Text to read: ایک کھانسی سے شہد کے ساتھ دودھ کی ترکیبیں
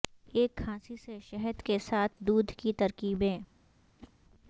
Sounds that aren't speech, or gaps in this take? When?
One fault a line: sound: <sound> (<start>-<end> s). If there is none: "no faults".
sound: whoosh (4.0-4.1 s)